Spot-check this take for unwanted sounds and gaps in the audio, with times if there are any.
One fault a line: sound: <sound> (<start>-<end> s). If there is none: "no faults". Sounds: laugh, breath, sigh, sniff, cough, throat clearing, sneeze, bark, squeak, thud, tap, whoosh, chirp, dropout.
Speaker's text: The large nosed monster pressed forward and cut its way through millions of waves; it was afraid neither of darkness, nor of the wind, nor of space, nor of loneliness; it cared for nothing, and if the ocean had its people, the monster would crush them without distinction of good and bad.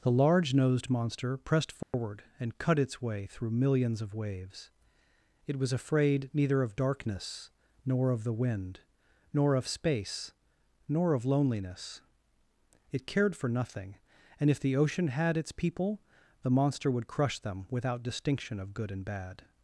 sound: dropout (1.8-1.9 s)